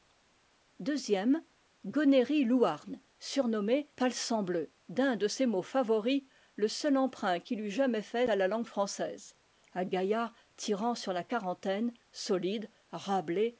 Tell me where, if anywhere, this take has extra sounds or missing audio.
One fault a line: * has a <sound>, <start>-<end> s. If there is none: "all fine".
all fine